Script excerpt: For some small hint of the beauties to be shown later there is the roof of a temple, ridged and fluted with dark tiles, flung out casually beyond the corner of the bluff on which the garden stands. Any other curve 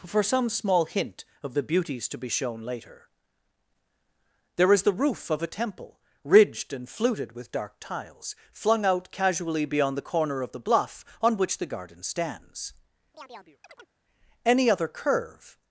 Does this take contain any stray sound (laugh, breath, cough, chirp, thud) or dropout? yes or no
yes